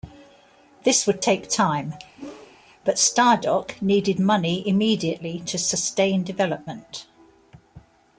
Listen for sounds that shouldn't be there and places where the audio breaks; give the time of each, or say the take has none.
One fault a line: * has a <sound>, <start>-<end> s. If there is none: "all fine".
* has a whoosh, 2.2-2.6 s